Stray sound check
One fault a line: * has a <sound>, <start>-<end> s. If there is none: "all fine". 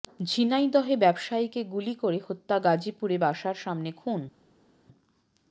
all fine